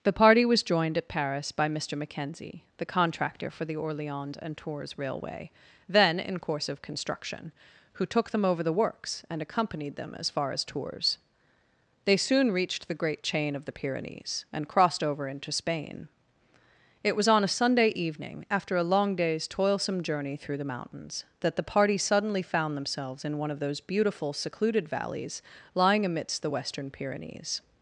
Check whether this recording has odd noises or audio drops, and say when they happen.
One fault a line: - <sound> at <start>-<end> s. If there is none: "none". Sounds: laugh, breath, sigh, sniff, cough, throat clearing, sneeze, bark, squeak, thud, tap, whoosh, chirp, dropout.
none